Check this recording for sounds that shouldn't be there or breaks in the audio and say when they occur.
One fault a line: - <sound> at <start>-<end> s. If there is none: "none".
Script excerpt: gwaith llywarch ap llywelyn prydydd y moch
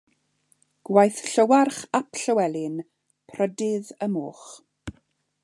none